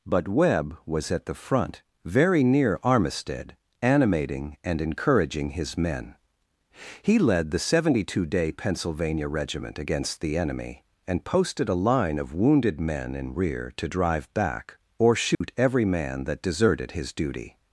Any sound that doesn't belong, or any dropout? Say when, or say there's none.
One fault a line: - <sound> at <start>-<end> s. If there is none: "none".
- dropout at 15.3-15.4 s